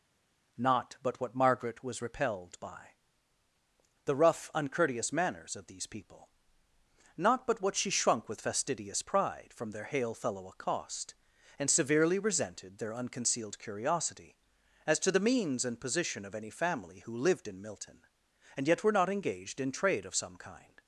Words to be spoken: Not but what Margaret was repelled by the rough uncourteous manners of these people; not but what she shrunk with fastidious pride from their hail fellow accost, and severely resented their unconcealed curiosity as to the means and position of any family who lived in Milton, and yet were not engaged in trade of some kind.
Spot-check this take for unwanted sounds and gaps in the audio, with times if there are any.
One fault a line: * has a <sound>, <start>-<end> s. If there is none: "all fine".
all fine